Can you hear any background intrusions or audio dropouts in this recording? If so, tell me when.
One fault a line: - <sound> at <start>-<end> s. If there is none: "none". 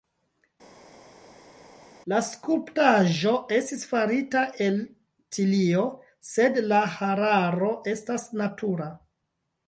none